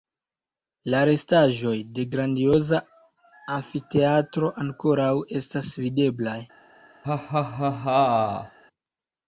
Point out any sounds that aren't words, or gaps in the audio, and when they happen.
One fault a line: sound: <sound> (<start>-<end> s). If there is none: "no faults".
sound: laugh (7.0-8.6 s)